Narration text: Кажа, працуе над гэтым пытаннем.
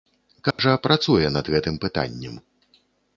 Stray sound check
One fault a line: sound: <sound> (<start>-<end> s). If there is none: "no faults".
sound: dropout (0.5-0.6 s)